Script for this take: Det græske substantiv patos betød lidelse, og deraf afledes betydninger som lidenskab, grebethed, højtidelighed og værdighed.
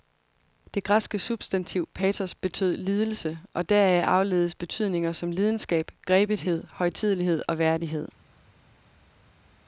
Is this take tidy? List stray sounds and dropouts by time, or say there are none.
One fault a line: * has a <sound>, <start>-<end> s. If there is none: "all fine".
all fine